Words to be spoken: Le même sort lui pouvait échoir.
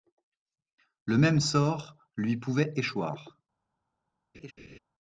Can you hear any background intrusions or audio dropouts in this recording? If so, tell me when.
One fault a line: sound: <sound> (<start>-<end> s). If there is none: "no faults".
sound: laugh (4.3-4.8 s)